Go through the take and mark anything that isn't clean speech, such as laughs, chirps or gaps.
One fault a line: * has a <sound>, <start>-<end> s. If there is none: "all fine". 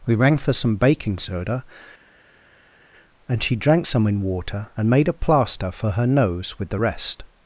all fine